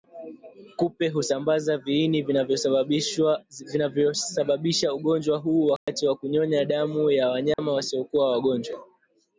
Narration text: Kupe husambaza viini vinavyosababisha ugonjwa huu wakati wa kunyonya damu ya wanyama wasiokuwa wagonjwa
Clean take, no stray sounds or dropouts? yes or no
no